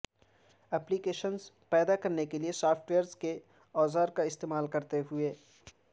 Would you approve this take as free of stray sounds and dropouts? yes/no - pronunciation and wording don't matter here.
yes